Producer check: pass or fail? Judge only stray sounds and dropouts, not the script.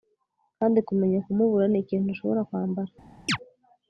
fail